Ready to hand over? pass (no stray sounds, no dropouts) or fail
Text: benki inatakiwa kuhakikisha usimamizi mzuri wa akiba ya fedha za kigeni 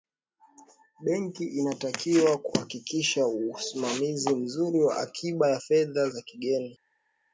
pass